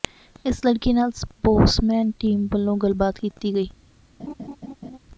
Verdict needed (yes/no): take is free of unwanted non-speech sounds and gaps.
no